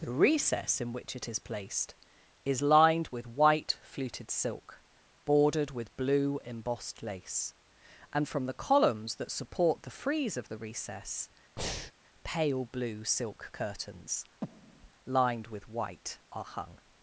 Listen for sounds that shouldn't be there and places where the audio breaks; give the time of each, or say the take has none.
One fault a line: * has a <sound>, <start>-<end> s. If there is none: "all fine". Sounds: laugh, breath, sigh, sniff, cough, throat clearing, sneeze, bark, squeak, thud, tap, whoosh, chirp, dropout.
* has a breath, 11.6-11.9 s
* has a breath, 14.4-14.9 s